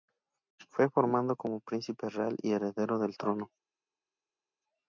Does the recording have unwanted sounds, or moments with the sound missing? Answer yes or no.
no